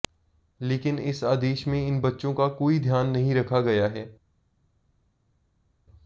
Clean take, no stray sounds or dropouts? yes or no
yes